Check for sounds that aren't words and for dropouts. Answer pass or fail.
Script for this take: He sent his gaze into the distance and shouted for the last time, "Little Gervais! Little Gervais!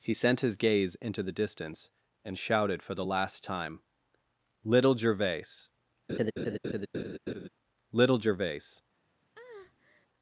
fail